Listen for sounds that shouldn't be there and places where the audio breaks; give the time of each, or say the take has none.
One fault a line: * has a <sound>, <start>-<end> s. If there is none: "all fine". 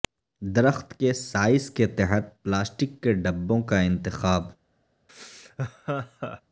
* has a laugh, 5.1-6.4 s